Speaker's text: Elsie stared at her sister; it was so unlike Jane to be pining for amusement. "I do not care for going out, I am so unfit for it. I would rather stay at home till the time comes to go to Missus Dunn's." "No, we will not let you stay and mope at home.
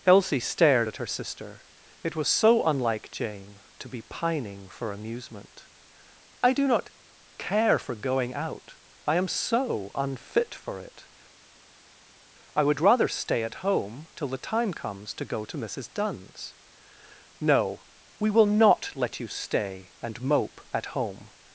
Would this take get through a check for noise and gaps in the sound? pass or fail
pass